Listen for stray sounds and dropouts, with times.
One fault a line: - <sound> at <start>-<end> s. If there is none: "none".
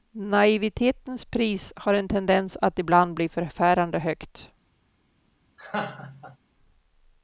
- laugh at 5.6-6.4 s